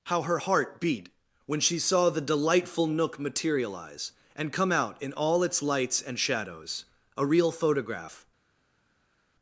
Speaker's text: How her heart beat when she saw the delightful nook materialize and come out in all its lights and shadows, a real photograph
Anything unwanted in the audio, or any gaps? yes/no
no